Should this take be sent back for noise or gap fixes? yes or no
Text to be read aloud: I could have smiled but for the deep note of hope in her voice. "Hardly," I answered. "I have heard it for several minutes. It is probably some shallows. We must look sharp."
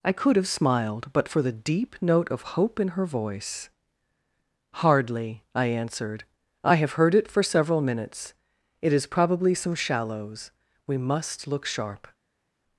no